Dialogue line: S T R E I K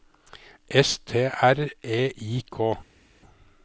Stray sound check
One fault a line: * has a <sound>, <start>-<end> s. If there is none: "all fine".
all fine